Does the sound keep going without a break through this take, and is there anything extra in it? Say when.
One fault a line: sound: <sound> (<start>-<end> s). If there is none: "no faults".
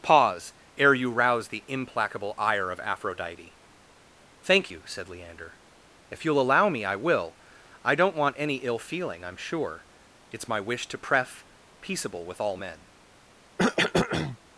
sound: cough (13.6-14.4 s)